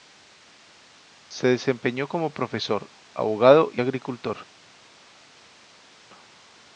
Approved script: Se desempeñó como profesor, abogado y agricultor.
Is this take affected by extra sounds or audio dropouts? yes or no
no